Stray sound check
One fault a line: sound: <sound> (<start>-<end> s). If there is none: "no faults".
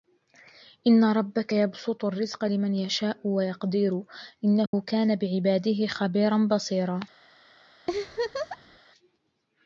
sound: dropout (4.7-4.7 s)
sound: laugh (7.9-8.8 s)